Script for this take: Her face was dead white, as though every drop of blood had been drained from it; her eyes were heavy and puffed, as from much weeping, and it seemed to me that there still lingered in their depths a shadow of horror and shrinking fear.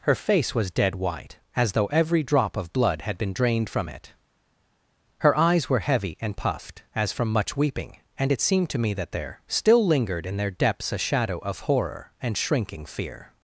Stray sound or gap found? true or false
false